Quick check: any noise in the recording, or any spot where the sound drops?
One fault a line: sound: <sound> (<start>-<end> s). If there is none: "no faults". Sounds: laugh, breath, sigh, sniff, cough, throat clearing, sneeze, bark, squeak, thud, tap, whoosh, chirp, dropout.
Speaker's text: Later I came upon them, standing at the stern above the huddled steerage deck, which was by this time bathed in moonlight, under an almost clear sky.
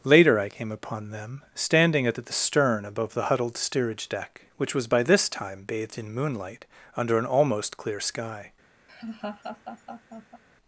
sound: laugh (8.9-10.4 s)